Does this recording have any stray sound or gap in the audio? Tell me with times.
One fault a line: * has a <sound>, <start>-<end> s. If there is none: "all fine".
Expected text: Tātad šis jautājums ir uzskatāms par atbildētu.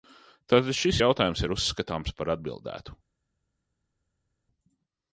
all fine